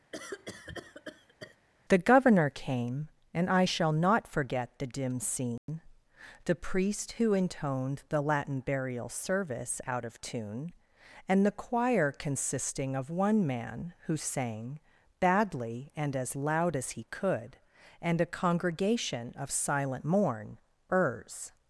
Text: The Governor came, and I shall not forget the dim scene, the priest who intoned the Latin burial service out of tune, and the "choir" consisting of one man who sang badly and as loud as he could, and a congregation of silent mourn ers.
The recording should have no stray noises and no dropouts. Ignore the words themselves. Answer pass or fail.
fail